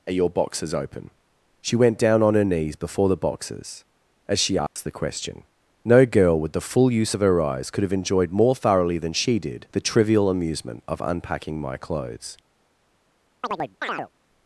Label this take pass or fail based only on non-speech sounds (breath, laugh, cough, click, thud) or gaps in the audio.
fail